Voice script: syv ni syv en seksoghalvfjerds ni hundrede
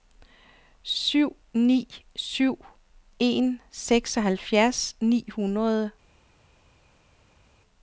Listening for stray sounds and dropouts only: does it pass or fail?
pass